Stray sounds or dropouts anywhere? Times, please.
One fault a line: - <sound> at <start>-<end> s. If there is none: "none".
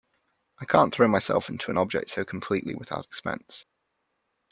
none